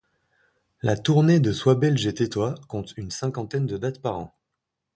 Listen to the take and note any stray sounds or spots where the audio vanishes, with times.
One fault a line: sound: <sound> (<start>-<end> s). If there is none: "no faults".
no faults